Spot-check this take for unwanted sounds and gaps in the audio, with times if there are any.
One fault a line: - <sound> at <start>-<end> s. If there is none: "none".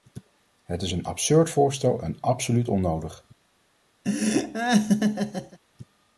- laugh at 4.0-5.6 s